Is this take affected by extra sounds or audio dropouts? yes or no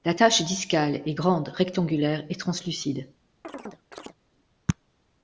yes